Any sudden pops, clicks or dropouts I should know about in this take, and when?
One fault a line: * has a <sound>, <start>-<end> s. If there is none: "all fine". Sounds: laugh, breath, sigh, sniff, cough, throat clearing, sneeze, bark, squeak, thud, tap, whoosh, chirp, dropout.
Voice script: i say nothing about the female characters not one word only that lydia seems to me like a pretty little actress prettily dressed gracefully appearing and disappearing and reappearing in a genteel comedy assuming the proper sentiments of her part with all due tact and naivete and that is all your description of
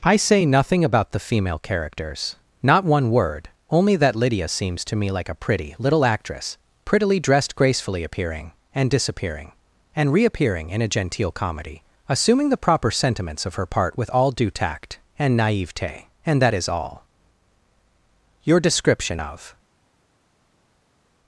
all fine